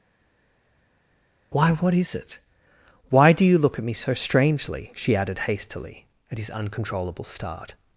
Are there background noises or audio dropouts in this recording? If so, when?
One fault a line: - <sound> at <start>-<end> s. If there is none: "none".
none